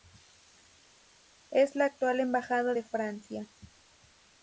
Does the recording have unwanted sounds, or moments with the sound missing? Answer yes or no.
no